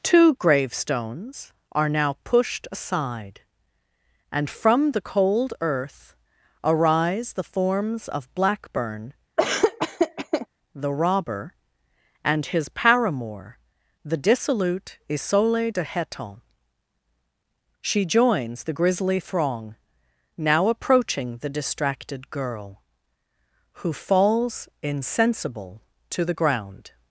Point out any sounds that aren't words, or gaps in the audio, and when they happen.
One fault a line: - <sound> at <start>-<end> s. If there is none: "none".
- laugh at 9.4-10.5 s